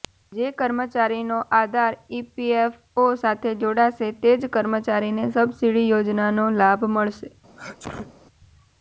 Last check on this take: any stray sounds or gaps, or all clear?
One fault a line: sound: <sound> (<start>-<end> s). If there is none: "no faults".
sound: sneeze (7.6-8.2 s)